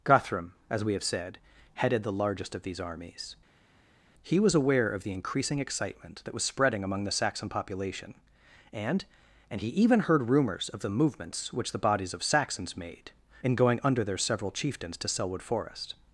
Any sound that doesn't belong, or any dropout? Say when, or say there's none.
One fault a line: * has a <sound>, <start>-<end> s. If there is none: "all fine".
all fine